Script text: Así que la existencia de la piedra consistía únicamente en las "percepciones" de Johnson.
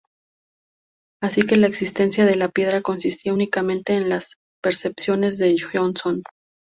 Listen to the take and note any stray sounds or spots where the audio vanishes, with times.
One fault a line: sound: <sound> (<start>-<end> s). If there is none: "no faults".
no faults